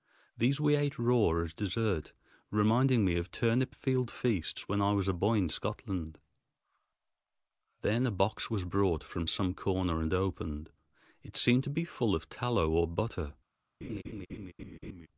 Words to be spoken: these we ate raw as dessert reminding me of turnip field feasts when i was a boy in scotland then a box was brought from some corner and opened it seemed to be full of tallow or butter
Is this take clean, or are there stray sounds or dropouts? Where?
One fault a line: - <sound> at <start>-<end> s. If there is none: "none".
- laugh at 13.8-15.1 s